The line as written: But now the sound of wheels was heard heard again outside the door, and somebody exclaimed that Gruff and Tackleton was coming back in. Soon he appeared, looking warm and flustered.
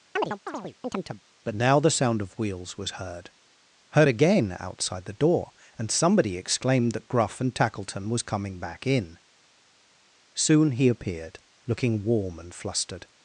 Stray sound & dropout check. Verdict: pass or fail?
fail